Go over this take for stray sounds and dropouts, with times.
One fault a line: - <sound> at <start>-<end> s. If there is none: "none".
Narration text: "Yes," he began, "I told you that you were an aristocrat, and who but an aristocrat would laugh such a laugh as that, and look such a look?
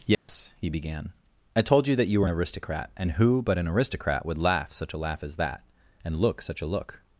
- dropout at 0.1-0.3 s